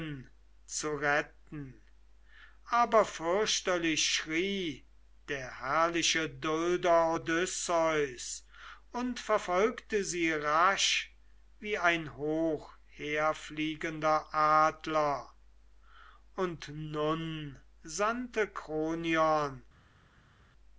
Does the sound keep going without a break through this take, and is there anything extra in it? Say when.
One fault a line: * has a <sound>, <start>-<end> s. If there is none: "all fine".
all fine